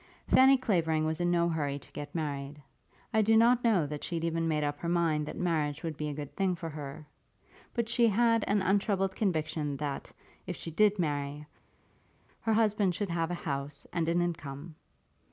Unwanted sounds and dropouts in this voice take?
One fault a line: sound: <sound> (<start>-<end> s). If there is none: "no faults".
no faults